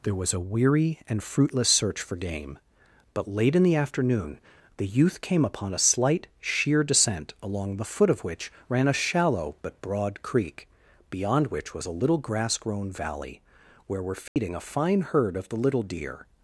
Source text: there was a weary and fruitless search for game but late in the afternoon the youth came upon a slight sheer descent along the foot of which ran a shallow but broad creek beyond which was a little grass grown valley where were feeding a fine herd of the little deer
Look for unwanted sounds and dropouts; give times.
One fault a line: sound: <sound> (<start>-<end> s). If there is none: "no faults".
sound: dropout (14.3-14.4 s)